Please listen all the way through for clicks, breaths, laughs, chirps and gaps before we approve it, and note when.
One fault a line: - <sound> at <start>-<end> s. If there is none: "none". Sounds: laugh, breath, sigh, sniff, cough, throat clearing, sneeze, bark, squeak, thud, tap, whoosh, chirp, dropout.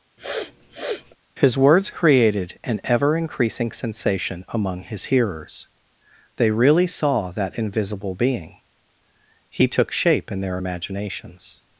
- sniff at 0.2-1.2 s